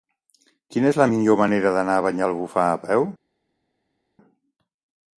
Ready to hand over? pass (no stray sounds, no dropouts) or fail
pass